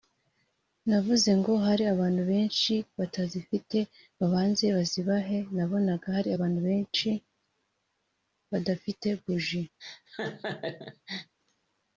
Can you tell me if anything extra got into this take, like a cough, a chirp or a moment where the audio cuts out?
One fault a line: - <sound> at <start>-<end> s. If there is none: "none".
- laugh at 9.8-11.3 s